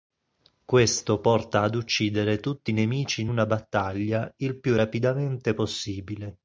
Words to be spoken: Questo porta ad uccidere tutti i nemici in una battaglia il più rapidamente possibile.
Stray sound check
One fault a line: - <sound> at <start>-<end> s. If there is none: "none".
none